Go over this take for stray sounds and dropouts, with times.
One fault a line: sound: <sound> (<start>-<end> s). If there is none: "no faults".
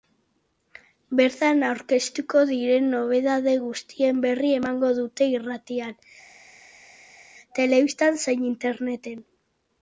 no faults